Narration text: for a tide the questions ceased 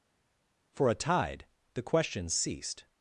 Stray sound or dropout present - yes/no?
no